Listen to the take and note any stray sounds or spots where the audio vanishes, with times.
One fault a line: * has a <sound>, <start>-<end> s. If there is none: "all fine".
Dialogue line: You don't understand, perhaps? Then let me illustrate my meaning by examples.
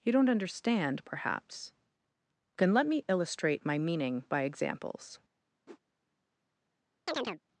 * has a whoosh, 5.7-5.8 s
* has a chirp, 7.1-7.4 s